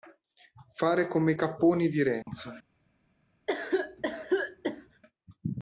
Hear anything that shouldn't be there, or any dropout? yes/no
yes